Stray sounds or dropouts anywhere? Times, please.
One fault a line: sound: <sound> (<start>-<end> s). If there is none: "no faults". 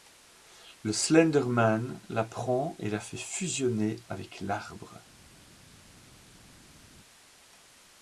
no faults